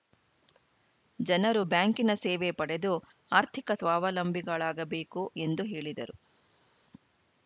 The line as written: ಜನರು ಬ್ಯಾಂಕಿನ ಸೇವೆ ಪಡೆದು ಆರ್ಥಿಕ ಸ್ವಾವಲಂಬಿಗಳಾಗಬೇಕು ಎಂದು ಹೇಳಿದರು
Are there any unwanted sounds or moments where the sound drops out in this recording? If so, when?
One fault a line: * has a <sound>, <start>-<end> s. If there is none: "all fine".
all fine